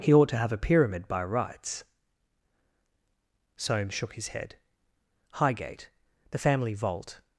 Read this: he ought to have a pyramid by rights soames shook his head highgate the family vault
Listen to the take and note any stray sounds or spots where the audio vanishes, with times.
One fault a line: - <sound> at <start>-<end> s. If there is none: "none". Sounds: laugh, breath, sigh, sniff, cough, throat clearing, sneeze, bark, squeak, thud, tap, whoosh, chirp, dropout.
none